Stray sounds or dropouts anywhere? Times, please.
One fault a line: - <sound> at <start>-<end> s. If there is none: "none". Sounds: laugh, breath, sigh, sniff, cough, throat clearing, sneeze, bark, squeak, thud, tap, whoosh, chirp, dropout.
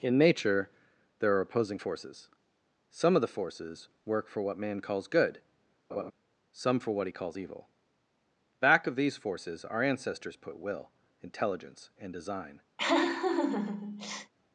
- laugh at 5.9-6.1 s
- laugh at 12.8-14.3 s